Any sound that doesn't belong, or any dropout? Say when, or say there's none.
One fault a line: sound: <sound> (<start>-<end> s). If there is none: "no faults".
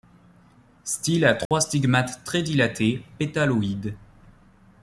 sound: dropout (1.5-1.5 s)